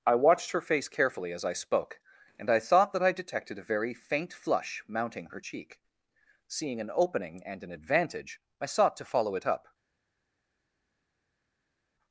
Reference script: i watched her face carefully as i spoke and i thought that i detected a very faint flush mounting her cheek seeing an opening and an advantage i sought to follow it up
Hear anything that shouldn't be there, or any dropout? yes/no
no